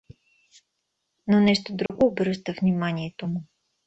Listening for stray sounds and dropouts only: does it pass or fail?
fail